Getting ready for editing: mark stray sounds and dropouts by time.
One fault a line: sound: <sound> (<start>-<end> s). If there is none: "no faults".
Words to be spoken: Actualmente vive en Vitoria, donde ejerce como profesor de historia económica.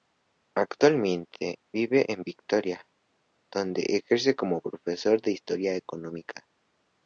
no faults